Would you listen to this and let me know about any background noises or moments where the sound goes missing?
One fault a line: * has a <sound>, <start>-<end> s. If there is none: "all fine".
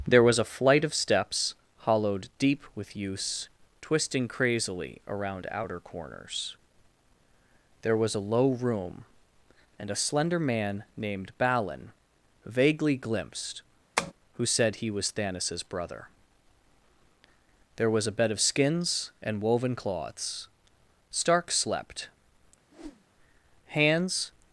* has a tap, 14.0-14.1 s
* has a whoosh, 22.7-23.1 s